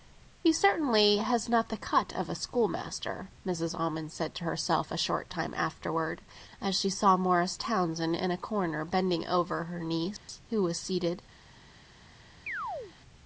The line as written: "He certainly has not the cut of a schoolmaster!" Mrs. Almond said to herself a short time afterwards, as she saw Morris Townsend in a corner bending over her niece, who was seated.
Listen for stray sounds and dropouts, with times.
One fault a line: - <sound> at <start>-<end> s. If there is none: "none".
- dropout at 10.2-10.3 s
- chirp at 12.5-12.9 s